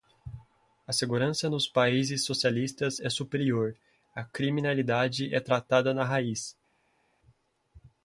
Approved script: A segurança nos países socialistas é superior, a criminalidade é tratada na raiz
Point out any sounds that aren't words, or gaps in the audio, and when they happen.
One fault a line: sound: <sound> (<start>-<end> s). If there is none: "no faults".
no faults